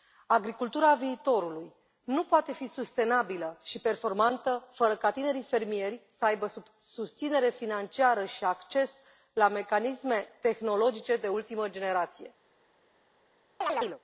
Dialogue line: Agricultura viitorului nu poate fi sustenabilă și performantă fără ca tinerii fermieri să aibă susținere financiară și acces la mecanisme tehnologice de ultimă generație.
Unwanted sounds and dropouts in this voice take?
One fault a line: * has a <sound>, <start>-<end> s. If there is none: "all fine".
* has a chirp, 13.6-14.0 s